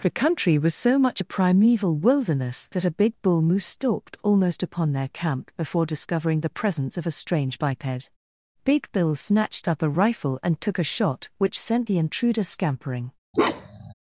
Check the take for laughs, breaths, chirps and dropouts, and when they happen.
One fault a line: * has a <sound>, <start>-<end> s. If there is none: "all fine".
* has a bark, 13.3-13.9 s